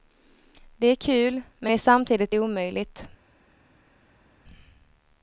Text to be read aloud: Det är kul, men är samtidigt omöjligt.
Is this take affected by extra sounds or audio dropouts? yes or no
no